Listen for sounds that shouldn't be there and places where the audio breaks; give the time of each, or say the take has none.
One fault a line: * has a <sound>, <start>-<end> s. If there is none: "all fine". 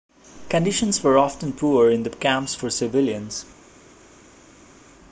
all fine